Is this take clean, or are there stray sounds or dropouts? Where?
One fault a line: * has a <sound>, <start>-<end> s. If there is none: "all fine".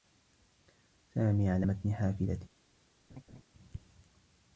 * has a laugh, 3.1-3.4 s